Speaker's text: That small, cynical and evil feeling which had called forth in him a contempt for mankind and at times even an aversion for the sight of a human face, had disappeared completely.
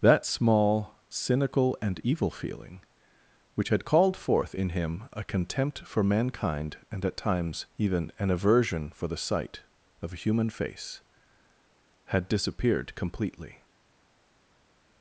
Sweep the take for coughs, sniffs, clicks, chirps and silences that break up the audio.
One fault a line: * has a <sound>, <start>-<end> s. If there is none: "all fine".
all fine